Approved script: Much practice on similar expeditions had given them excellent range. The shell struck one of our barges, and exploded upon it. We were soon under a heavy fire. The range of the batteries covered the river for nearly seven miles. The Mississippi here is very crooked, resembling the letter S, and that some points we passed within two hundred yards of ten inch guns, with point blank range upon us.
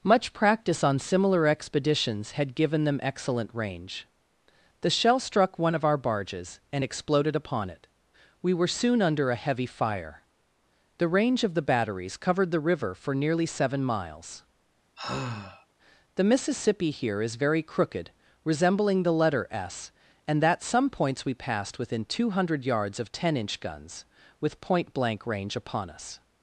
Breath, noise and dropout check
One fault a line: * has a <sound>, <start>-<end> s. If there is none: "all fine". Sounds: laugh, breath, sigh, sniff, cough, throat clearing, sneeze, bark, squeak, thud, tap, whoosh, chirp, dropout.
* has a sigh, 15.0-15.7 s